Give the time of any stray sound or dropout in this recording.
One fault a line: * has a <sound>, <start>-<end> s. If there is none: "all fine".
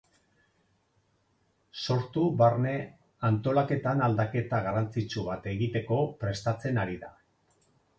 all fine